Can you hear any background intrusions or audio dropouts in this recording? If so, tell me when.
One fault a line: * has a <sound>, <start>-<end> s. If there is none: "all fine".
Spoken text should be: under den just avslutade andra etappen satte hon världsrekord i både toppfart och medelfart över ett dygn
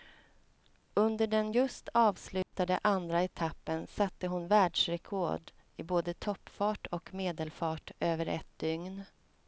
* has a dropout, 2.4-2.5 s